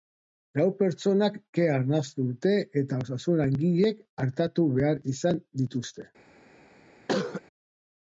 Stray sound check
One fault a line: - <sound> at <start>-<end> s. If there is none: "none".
- cough at 7.1-7.4 s